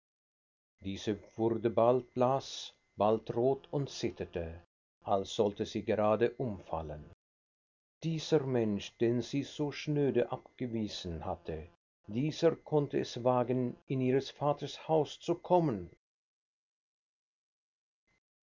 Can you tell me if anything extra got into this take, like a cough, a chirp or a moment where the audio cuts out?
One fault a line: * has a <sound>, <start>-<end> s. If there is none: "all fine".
all fine